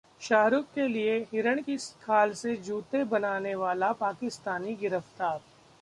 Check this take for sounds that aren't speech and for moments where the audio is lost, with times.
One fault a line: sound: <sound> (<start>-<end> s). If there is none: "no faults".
no faults